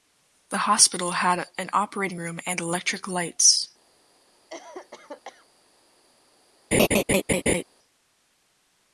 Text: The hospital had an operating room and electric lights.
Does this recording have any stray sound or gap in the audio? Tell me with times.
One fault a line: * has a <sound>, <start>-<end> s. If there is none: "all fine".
* has a cough, 4.5-5.5 s
* has a laugh, 6.7-7.6 s